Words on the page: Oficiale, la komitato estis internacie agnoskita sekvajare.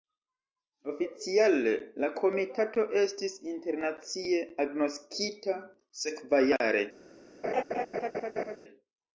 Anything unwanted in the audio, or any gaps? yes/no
yes